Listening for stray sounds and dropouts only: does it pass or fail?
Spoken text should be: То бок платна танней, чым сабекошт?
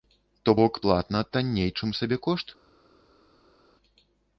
pass